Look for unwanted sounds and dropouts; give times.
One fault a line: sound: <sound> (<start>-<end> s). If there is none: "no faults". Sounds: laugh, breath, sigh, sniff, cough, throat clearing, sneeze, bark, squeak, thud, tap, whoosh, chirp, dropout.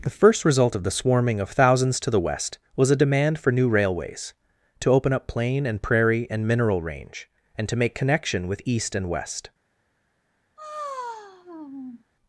sound: sigh (10.6-12.0 s)